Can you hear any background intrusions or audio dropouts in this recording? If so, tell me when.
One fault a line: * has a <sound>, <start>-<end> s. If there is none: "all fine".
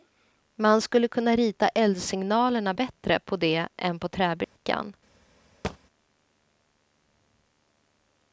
* has a dropout, 4.4-4.6 s
* has a thud, 5.6-5.8 s